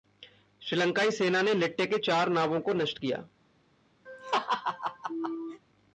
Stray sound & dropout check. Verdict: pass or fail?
fail